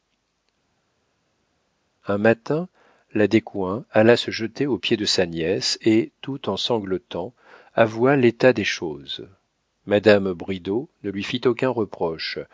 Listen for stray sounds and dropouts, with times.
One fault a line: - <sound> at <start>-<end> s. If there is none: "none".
none